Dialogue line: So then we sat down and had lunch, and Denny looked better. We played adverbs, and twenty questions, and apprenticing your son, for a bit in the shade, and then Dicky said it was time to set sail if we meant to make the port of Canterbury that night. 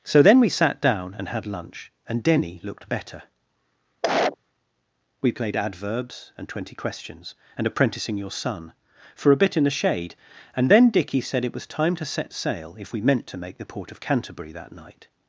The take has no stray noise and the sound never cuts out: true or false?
false